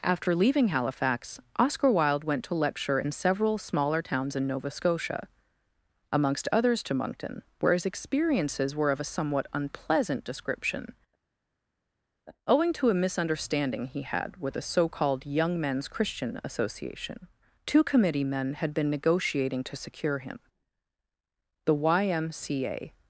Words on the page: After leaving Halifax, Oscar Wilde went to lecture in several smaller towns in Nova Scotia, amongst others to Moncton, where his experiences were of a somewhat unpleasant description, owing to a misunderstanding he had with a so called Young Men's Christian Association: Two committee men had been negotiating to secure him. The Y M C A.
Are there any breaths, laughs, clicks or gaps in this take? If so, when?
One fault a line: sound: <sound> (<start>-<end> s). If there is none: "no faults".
no faults